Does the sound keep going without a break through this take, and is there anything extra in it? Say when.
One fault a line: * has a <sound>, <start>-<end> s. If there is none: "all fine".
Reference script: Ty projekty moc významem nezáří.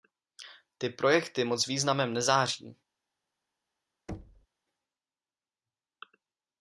* has a thud, 4.1-4.5 s